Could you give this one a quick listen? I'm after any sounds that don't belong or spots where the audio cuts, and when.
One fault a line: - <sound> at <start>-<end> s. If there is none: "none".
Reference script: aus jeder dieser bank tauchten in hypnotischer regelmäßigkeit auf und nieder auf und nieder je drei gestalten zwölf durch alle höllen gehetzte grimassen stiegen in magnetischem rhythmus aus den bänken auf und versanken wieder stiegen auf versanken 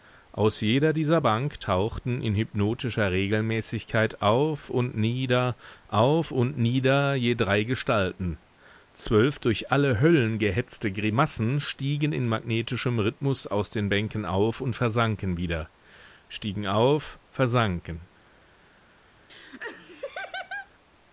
- laugh at 19.3-20.7 s